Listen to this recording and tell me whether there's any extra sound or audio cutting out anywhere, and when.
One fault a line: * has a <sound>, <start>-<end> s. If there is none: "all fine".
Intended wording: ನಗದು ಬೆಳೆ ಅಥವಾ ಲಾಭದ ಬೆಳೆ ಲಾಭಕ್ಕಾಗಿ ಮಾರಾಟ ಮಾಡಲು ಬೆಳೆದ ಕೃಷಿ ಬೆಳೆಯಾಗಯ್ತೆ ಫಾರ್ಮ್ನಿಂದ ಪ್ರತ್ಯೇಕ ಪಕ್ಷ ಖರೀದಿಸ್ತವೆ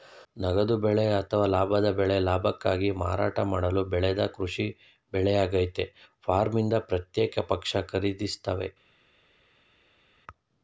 all fine